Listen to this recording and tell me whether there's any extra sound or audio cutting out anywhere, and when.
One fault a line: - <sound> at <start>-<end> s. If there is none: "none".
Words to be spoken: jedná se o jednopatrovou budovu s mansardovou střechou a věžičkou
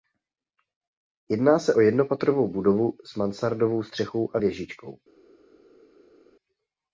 none